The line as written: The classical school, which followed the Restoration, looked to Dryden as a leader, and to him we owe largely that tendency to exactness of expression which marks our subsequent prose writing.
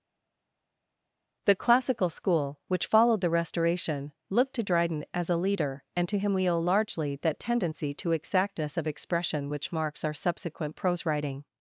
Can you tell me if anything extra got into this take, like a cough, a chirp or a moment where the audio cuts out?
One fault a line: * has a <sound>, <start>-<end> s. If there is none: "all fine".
all fine